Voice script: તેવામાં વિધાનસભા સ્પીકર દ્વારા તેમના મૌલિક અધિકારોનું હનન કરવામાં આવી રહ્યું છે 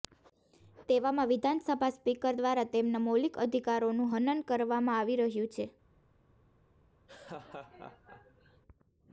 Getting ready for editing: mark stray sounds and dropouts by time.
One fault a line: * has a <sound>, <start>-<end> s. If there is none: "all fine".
* has a laugh, 7.1-8.6 s